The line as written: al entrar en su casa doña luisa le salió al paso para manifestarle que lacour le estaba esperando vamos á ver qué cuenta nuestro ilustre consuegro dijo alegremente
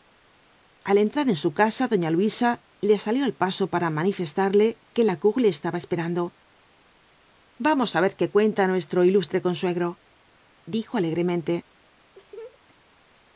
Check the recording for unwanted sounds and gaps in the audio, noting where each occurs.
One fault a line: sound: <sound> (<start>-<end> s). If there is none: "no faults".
sound: laugh (12.1-12.6 s)